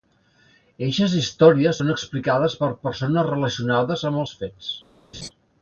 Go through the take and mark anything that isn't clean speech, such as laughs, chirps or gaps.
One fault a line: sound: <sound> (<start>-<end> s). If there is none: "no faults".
sound: laugh (5.1-5.3 s)